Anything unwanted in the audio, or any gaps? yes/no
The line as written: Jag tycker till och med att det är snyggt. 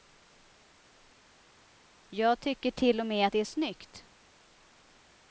no